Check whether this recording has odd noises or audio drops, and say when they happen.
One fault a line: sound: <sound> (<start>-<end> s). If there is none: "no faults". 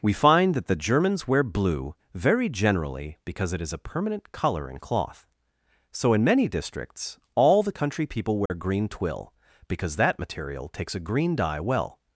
sound: dropout (8.5-8.5 s)